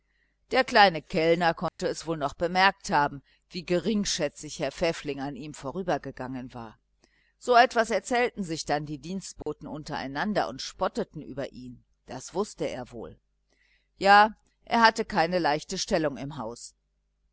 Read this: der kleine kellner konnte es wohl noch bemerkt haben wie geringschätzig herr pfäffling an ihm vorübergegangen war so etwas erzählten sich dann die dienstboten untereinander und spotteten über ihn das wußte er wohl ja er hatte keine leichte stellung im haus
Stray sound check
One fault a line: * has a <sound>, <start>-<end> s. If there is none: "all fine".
* has a dropout, 1.7-1.8 s
* has a dropout, 9.4-9.5 s